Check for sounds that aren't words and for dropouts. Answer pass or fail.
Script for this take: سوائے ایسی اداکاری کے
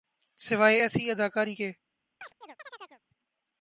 fail